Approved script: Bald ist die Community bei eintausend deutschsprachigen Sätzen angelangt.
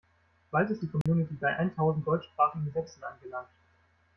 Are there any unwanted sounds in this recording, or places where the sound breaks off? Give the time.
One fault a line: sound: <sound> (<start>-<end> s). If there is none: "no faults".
sound: dropout (1.0-1.1 s)